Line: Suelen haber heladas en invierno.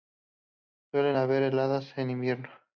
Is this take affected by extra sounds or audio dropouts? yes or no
no